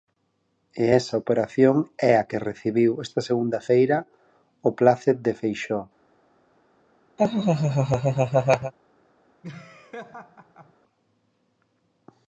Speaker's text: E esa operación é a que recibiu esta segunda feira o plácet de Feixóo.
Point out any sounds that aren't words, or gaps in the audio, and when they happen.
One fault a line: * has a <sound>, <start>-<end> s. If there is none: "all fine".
* has a laugh, 7.2-8.7 s
* has a laugh, 9.4-10.7 s